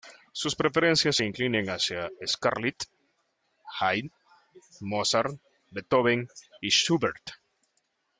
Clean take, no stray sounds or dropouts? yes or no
yes